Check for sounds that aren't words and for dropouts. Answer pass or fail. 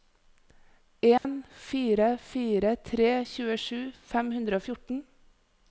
fail